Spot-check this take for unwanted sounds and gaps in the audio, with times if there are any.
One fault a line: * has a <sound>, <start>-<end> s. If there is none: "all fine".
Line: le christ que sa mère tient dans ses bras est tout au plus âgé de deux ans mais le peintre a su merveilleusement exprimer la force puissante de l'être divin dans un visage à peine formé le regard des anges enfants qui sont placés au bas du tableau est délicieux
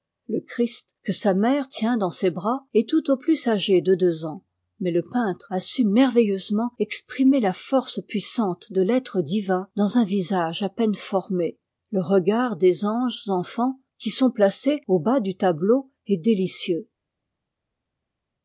all fine